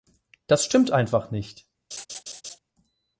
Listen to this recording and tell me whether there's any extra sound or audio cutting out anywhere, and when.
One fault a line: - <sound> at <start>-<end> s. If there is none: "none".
- laugh at 1.9-2.6 s